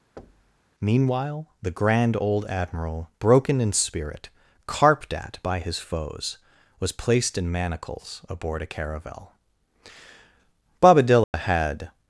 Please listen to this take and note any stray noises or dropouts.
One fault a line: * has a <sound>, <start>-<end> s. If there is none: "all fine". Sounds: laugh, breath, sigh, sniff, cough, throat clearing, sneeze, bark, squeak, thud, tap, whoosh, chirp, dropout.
* has a thud, 0.2-0.6 s
* has a dropout, 11.2-11.3 s